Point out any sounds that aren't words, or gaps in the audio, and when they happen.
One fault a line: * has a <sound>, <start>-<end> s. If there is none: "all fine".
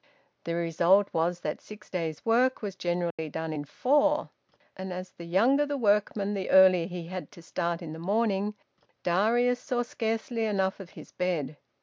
* has a dropout, 3.1-3.2 s